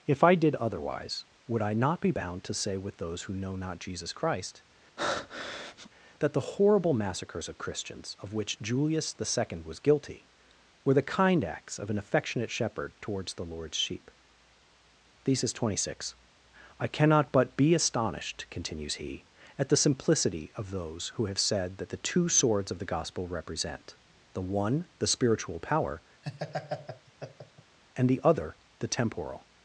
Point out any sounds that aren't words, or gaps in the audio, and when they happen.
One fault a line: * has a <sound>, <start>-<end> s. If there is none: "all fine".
* has a breath, 5.0-5.9 s
* has a laugh, 26.2-27.8 s